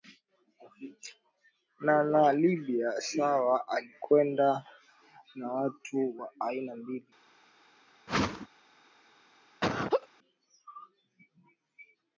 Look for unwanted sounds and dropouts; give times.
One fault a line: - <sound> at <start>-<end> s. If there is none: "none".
- whoosh at 8.1-8.5 s
- laugh at 9.6-10.1 s